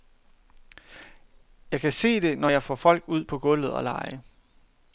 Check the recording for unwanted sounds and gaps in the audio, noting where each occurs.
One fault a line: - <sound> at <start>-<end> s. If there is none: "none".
none